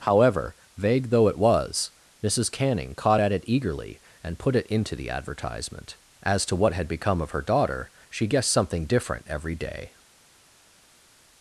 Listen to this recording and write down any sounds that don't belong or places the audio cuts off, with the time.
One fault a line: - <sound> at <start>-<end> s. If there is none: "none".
none